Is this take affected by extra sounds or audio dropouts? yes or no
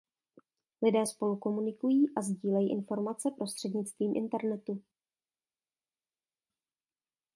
no